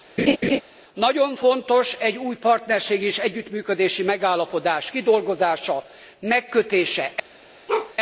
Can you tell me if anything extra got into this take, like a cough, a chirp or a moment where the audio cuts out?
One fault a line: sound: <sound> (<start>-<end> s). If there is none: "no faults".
sound: laugh (0.2-0.6 s)
sound: bark (7.7-7.9 s)